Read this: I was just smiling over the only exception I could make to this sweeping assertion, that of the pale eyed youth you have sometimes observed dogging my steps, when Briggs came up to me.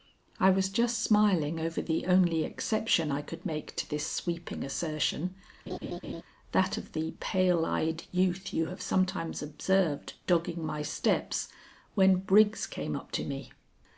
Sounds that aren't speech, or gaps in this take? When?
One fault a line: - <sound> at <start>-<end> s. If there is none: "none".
- laugh at 5.7-6.2 s